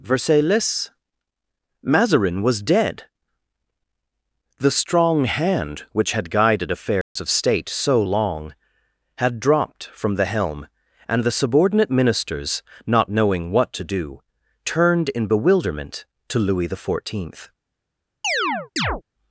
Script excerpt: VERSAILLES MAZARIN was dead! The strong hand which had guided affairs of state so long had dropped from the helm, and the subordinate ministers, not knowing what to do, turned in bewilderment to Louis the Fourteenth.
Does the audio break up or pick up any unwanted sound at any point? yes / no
yes